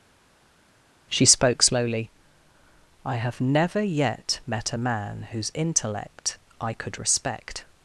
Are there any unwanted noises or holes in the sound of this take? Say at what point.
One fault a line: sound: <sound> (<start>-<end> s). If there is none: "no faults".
no faults